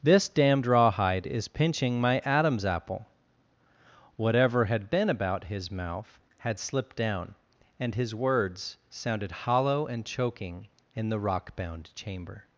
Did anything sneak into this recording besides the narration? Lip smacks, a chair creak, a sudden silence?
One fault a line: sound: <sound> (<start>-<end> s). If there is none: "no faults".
no faults